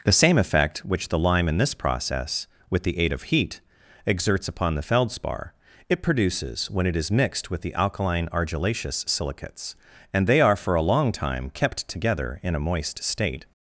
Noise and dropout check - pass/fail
pass